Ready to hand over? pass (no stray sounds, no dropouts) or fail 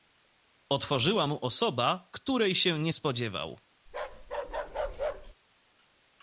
fail